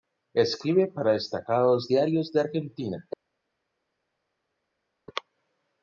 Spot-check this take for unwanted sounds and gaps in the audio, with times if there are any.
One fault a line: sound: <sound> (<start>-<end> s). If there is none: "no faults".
no faults